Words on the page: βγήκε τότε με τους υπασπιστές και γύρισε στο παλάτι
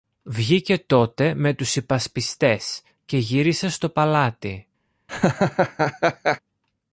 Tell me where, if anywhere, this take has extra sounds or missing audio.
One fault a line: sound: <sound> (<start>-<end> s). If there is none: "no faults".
sound: laugh (5.1-6.4 s)